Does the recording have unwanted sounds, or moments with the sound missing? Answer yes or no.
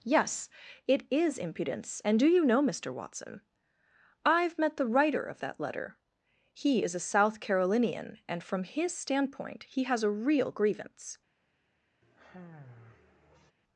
yes